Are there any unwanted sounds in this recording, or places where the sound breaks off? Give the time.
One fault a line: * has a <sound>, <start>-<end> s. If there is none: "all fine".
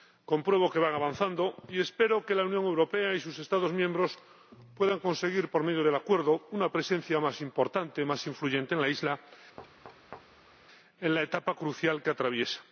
* has a thud, 9.6-10.7 s